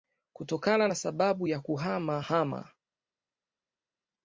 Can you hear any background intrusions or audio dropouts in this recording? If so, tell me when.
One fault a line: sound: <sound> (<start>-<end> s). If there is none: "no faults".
no faults